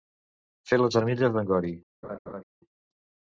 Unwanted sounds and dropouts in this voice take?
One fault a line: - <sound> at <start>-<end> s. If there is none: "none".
- laugh at 2.0-2.4 s